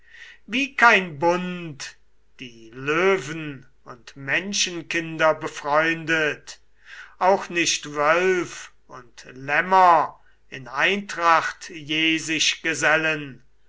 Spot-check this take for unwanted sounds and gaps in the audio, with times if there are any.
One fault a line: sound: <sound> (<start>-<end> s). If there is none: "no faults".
no faults